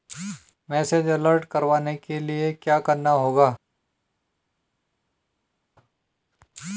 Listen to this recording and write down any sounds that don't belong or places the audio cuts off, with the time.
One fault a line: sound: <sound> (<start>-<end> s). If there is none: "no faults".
no faults